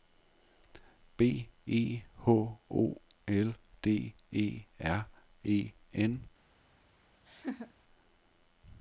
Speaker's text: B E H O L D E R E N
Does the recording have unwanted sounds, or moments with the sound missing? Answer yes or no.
yes